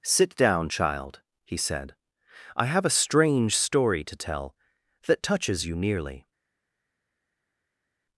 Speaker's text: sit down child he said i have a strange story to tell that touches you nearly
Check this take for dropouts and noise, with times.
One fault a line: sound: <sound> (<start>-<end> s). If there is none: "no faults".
no faults